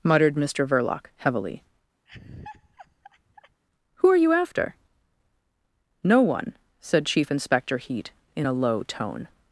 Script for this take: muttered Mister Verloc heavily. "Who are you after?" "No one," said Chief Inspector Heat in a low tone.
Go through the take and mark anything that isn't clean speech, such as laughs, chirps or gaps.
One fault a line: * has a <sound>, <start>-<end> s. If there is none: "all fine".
* has a laugh, 2.1-3.6 s